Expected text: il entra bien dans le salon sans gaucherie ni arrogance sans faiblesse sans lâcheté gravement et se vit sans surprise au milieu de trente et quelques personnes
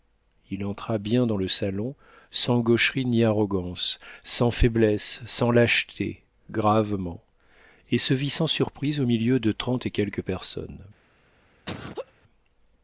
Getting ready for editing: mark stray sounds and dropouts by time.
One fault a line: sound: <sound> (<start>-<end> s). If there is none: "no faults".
sound: laugh (11.7-12.1 s)